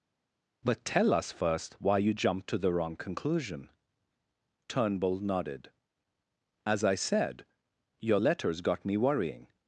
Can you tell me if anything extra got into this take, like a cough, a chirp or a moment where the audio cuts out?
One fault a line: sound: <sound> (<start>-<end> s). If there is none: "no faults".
no faults